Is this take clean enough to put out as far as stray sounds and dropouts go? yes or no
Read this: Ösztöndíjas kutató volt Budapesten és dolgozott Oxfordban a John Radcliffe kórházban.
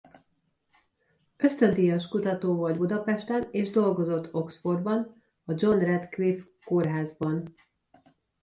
yes